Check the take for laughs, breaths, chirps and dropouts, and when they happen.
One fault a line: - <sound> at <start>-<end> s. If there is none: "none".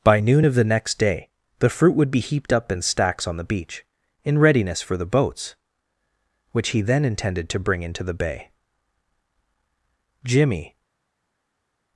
none